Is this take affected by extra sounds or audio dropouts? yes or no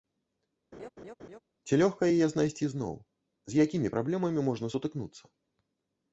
yes